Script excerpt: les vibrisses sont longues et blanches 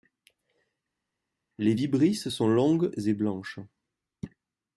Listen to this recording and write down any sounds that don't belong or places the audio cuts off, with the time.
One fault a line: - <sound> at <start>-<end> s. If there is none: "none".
none